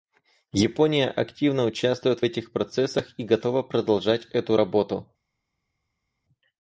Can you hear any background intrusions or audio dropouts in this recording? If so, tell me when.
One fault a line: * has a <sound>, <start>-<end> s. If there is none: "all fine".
all fine